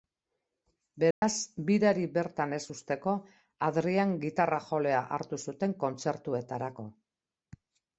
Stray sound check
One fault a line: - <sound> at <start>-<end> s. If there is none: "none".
- dropout at 1.1-1.2 s